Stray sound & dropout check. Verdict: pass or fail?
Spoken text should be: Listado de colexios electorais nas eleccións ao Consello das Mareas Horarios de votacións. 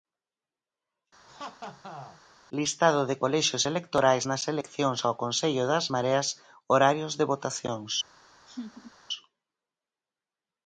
fail